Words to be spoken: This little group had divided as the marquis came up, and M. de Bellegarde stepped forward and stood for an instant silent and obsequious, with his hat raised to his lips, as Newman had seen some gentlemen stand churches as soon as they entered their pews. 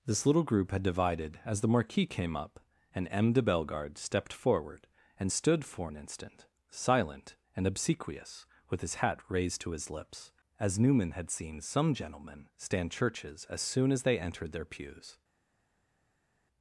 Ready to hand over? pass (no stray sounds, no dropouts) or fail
pass